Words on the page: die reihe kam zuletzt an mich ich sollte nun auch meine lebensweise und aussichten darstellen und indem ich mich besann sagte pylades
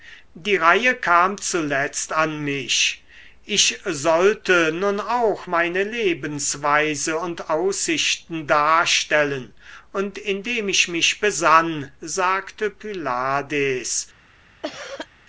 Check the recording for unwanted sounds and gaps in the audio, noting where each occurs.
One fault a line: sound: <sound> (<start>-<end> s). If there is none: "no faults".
sound: cough (14.6-15.1 s)